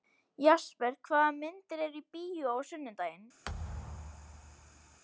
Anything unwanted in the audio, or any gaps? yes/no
yes